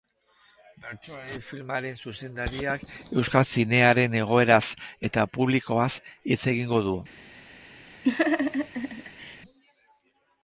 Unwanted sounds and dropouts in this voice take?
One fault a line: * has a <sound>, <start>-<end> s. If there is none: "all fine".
* has a laugh, 8.0-9.4 s